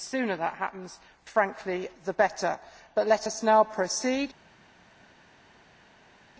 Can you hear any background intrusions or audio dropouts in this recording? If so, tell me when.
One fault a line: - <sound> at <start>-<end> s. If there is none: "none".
none